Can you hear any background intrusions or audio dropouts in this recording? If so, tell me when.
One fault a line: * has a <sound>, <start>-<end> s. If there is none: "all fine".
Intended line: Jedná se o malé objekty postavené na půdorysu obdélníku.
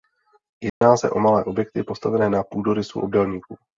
* has a dropout, 0.7-0.8 s